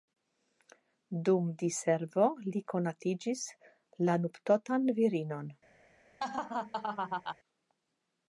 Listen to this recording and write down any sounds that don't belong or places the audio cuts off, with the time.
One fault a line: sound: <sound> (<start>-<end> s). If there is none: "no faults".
sound: laugh (6.2-7.4 s)